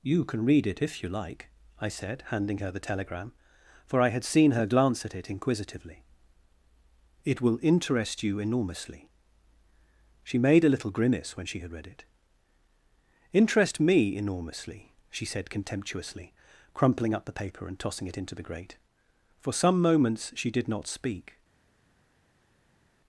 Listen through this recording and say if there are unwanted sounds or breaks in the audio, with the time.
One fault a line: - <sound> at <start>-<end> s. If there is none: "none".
none